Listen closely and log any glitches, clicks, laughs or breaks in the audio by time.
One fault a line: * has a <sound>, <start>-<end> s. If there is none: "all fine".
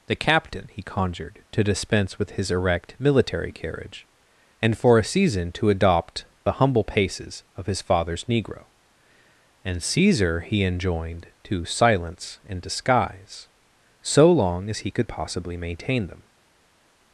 all fine